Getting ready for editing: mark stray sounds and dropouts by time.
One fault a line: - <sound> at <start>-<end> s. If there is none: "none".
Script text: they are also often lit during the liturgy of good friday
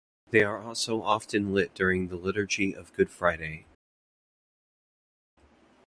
none